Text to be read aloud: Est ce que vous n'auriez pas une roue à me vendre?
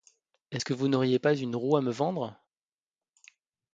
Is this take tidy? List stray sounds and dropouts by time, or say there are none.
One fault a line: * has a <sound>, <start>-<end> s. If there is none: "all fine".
all fine